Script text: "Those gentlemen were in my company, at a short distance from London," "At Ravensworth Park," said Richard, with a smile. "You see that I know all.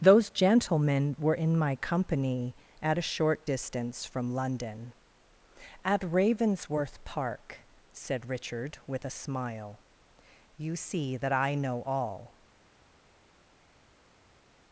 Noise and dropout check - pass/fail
pass